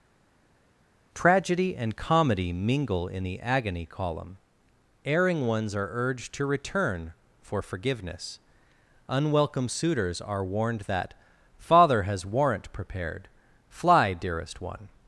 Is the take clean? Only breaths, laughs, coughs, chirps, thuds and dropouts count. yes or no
yes